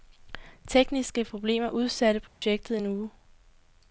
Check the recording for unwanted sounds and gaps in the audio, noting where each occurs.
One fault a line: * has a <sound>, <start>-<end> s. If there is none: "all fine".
* has a dropout, 2.3-2.4 s